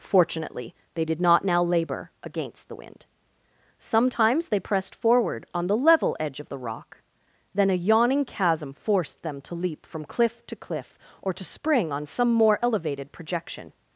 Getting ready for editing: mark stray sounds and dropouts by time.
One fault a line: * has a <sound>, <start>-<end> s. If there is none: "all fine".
all fine